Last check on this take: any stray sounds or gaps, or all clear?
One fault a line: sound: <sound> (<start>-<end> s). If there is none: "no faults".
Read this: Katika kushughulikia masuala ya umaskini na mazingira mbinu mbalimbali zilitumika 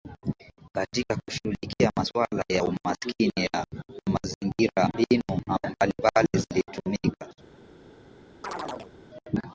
sound: chirp (8.4-8.9 s)